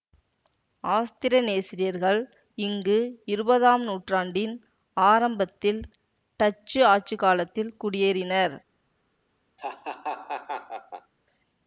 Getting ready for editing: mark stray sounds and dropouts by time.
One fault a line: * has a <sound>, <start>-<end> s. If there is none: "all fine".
* has a laugh, 9.6-11.1 s